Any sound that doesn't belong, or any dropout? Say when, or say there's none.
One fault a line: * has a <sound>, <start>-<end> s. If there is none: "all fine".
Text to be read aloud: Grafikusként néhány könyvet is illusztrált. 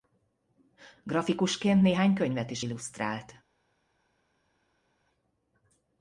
all fine